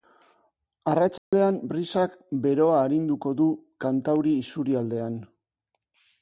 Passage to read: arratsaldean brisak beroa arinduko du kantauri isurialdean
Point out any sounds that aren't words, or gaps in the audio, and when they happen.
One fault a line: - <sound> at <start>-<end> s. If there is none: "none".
- dropout at 1.2-1.3 s